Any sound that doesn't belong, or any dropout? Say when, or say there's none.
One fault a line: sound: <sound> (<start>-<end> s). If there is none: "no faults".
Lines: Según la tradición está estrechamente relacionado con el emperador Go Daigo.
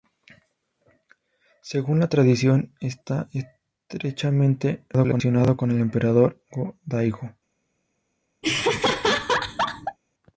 sound: laugh (8.4-10.0 s)